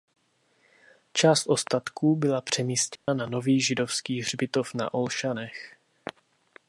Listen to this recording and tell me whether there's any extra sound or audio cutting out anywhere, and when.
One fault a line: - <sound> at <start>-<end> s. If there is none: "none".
- dropout at 3.0-3.1 s